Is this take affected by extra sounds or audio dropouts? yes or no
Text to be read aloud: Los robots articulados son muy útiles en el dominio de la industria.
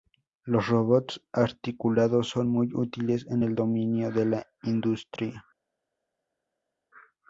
no